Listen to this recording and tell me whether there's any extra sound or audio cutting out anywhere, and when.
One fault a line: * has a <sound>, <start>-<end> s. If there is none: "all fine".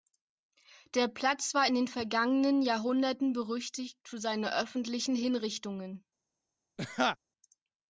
* has a laugh, 6.8-7.2 s